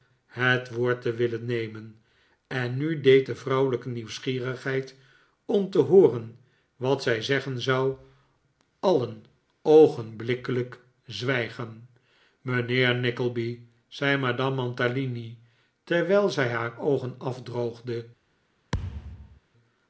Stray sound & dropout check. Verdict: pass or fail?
fail